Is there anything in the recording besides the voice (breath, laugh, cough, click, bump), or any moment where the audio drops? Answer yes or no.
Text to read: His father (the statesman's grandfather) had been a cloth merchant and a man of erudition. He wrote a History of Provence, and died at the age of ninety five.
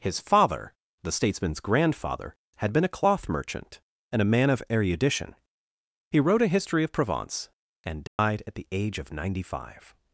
yes